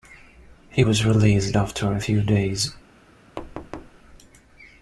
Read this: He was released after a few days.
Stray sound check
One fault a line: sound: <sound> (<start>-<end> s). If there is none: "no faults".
sound: thud (3.4-4.0 s)